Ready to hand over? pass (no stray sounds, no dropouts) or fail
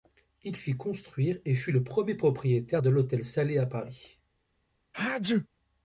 fail